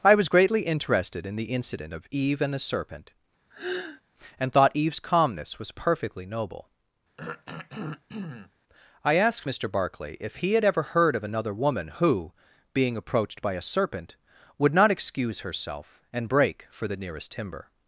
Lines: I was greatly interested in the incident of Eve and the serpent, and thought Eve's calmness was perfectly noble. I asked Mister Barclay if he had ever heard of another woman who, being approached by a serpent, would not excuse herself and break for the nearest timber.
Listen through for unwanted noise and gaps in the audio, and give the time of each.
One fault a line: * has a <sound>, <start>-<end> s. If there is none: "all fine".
* has a sigh, 3.5-4.0 s
* has a throat clearing, 7.2-8.5 s